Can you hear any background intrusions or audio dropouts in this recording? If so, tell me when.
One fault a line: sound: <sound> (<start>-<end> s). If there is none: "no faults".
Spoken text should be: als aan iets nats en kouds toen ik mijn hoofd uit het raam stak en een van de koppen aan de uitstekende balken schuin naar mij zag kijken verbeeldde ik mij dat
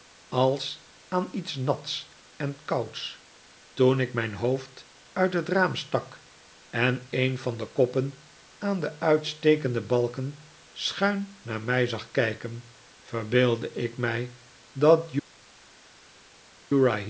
no faults